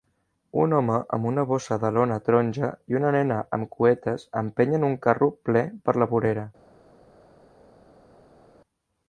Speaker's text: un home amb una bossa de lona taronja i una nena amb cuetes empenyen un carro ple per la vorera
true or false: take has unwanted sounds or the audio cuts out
false